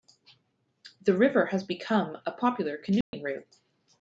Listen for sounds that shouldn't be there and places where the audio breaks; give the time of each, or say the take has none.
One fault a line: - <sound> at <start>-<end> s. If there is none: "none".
- dropout at 3.0-3.1 s